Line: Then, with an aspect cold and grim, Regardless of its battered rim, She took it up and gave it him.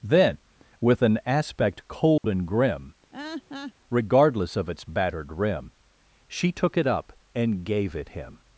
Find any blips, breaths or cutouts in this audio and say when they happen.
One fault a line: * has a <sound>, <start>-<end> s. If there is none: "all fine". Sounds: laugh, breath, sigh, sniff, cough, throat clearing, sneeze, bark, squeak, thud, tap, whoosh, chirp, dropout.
* has a dropout, 2.2-2.2 s
* has a laugh, 3.1-3.7 s